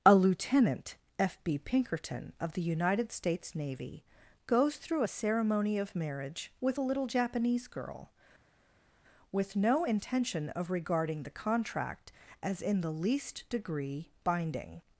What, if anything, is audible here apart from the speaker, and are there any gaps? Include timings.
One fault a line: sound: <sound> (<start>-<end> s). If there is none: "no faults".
no faults